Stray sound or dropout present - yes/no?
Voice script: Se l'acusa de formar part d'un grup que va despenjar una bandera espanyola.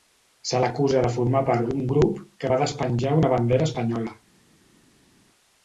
no